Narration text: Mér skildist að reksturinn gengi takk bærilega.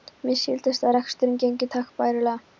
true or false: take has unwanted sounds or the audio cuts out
false